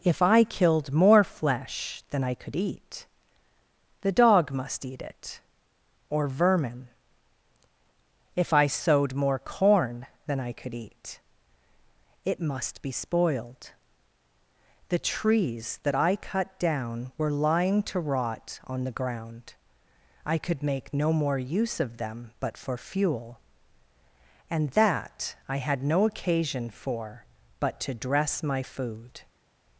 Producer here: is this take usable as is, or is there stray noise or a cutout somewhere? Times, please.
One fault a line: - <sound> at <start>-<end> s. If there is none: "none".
none